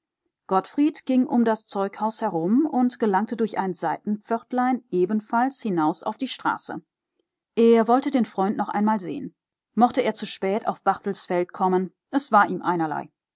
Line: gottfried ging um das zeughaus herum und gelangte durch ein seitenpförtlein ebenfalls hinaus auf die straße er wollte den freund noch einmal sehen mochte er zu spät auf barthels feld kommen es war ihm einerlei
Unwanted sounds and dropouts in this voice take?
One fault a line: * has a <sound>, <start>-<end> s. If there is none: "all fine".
all fine